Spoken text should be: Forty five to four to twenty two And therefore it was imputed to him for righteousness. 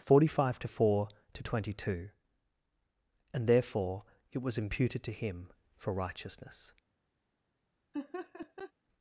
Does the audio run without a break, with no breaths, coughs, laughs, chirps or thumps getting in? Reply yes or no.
no